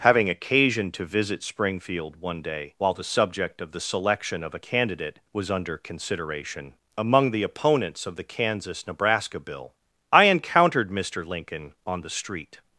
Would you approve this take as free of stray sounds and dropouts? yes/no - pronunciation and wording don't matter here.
yes